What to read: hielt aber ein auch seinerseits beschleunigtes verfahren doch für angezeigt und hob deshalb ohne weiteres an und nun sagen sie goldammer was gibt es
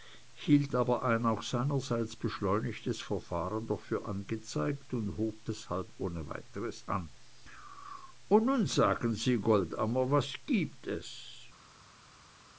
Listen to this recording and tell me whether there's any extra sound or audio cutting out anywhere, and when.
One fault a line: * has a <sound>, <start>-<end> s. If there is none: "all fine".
all fine